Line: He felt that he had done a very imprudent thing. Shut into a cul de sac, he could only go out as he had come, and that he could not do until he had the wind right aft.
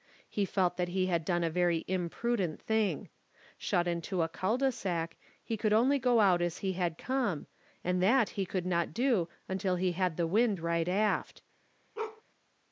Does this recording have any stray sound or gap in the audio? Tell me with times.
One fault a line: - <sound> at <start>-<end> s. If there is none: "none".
- bark at 11.9-12.2 s